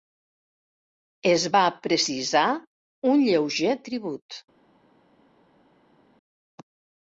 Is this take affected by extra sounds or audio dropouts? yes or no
no